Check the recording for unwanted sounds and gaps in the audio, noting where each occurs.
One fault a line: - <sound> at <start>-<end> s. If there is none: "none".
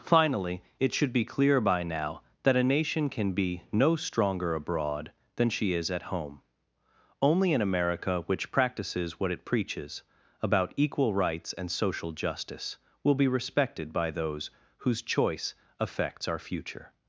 none